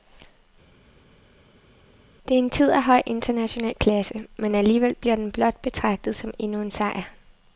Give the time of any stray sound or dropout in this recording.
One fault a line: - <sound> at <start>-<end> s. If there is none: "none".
none